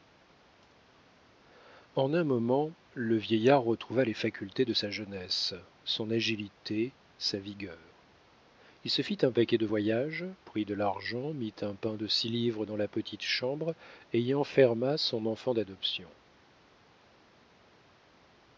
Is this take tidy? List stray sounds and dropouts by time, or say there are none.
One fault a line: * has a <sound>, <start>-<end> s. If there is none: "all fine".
all fine